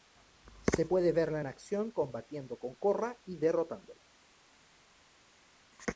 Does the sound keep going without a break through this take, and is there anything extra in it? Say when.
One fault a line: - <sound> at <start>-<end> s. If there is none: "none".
none